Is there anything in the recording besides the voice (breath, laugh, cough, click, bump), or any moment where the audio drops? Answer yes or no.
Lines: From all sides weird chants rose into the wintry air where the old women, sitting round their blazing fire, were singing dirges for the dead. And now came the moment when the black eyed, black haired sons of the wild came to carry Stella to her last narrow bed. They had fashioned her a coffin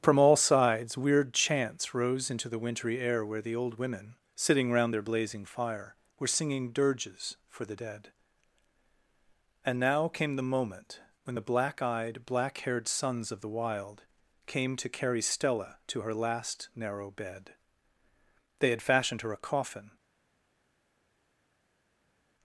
no